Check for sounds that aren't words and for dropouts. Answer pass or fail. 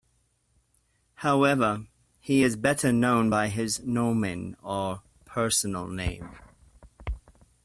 pass